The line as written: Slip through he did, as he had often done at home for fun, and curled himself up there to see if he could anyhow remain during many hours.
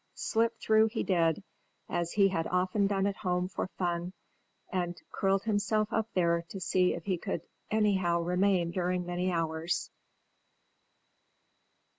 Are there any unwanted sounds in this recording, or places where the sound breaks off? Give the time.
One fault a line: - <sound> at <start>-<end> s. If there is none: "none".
none